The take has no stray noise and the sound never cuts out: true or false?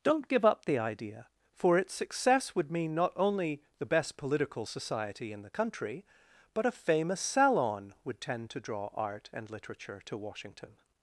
true